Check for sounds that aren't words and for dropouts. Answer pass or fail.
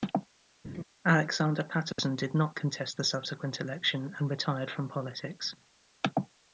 fail